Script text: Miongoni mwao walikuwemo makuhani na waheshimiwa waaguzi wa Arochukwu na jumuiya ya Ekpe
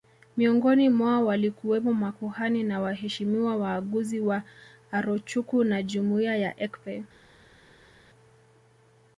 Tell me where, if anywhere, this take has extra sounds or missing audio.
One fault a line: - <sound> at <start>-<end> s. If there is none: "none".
none